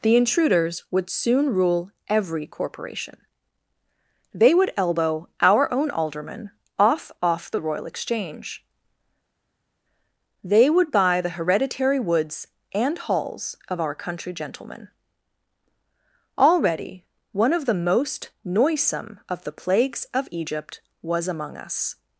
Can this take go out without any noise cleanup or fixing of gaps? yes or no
yes